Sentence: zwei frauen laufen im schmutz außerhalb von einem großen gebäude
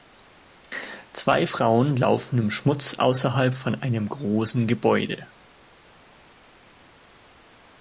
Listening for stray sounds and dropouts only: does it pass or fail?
pass